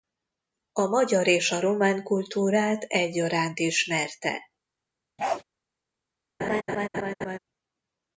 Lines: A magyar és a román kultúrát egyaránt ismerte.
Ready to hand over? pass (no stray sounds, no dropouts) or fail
fail